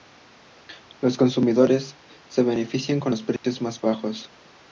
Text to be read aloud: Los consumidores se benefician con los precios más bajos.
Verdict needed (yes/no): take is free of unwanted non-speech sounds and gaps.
no